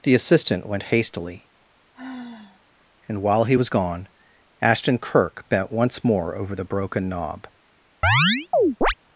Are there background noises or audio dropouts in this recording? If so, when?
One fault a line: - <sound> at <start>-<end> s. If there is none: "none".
- sigh at 1.9-2.6 s
- chirp at 8.0-8.9 s